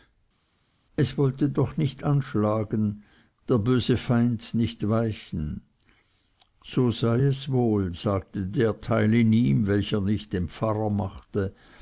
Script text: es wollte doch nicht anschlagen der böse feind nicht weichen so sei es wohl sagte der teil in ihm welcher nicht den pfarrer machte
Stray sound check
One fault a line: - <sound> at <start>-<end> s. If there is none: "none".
none